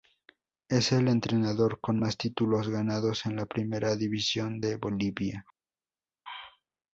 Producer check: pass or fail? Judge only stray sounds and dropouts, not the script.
pass